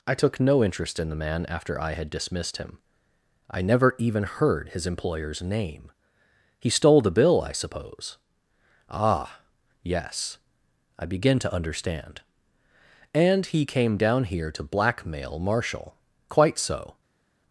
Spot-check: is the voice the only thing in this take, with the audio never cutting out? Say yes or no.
yes